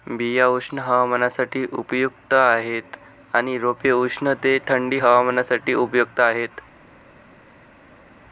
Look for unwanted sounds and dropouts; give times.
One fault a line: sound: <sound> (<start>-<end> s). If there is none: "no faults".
no faults